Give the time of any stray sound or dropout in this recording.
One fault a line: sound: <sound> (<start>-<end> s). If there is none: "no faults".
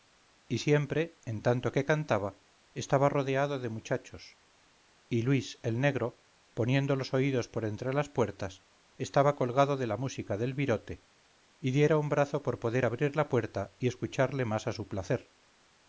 no faults